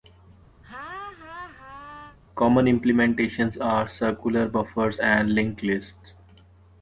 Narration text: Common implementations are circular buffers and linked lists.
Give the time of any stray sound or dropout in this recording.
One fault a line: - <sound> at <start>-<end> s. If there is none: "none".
- laugh at 0.6-2.2 s